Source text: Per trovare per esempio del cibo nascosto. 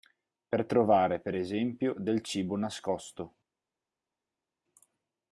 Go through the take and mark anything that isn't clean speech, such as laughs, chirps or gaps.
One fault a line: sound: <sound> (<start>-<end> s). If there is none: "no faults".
no faults